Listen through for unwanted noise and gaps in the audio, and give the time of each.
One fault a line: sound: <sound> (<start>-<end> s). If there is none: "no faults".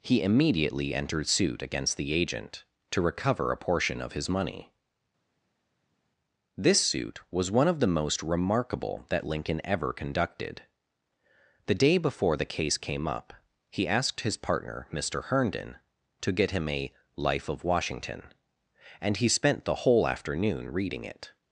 no faults